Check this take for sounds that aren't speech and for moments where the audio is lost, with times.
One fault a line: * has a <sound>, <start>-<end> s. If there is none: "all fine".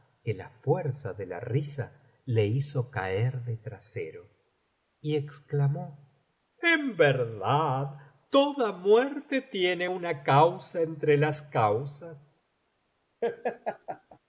* has a laugh, 13.2-14.2 s